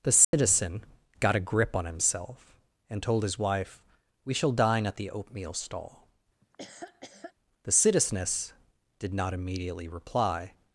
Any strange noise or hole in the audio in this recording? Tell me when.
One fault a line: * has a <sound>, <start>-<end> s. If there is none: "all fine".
* has a dropout, 0.2-0.3 s
* has a laugh, 6.4-7.3 s